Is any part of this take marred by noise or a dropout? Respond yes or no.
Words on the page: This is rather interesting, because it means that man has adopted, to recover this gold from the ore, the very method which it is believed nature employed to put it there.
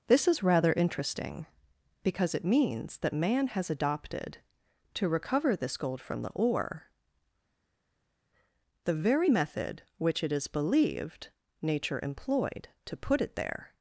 no